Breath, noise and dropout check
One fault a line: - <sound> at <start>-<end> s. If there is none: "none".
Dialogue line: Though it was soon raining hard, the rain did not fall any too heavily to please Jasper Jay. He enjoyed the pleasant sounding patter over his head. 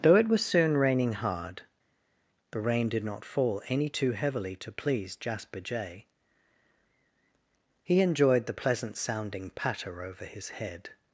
none